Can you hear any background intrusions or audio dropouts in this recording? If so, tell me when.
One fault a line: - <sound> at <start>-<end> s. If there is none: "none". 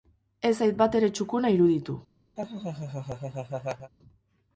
- laugh at 2.4-3.9 s